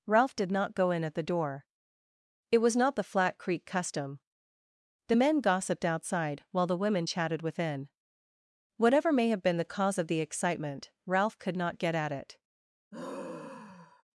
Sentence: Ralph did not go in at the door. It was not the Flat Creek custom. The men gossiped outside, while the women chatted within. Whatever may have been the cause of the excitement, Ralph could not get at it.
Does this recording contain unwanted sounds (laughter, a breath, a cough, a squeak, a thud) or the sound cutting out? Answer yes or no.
yes